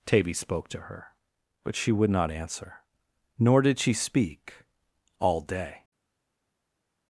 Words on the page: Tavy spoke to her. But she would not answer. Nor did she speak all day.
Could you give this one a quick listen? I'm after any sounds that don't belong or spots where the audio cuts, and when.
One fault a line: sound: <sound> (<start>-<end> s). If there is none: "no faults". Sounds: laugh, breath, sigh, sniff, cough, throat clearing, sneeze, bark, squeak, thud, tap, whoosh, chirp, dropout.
no faults